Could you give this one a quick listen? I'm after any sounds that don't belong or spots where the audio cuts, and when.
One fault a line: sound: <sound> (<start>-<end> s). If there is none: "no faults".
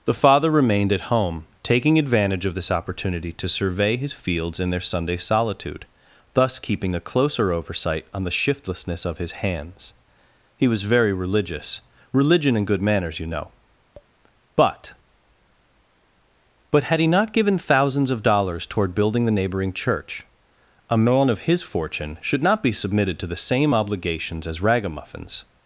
sound: tap (13.9-14.1 s)